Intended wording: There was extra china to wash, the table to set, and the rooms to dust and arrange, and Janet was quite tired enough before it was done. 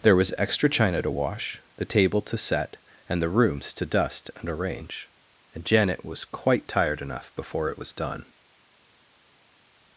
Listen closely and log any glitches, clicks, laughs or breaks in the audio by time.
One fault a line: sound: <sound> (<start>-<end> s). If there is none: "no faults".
no faults